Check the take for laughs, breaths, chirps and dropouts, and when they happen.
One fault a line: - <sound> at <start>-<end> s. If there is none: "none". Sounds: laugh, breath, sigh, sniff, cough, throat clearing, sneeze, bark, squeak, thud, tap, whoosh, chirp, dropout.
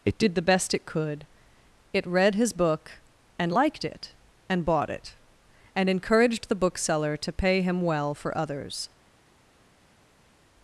none